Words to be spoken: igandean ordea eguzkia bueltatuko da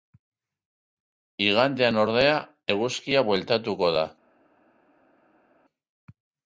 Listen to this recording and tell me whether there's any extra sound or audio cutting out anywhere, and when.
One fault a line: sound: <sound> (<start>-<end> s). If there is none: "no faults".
no faults